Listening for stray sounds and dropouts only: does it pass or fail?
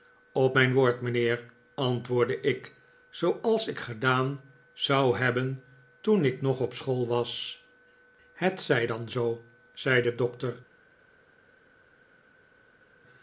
pass